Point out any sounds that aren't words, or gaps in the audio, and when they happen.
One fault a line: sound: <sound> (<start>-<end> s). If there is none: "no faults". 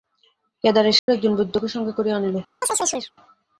sound: dropout (1.0-1.1 s)
sound: chirp (2.6-3.1 s)